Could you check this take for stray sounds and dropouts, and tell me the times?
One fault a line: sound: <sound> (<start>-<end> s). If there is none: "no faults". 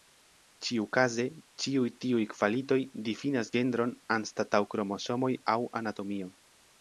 no faults